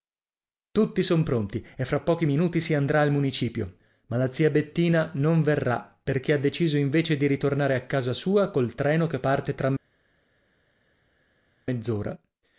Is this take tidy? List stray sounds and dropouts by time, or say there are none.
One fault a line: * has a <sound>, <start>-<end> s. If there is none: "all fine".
all fine